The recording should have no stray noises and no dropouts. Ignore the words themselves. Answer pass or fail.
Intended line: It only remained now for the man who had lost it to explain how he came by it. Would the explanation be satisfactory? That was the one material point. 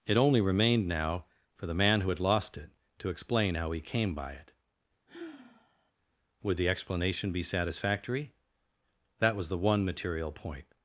fail